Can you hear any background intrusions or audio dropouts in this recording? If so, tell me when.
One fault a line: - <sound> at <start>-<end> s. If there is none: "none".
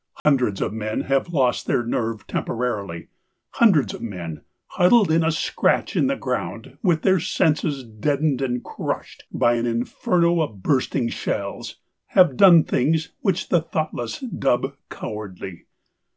- dropout at 0.2-0.3 s